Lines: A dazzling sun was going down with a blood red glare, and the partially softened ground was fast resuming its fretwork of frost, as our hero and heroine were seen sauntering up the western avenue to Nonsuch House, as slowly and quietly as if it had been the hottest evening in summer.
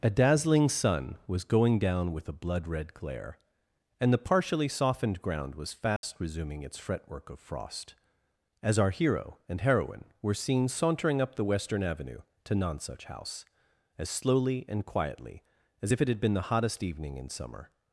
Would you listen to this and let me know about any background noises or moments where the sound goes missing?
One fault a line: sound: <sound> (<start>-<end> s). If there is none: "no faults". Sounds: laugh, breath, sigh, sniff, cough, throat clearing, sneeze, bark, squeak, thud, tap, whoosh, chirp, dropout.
sound: dropout (6.0-6.0 s)